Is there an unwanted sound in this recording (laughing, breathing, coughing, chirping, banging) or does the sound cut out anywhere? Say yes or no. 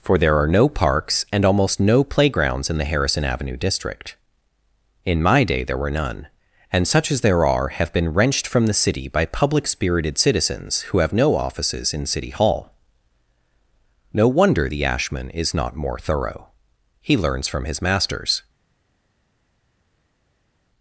no